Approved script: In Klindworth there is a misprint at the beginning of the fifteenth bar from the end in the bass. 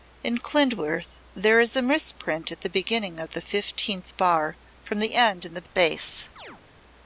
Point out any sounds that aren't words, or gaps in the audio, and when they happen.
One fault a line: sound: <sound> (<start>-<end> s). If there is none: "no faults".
sound: chirp (6.4-6.6 s)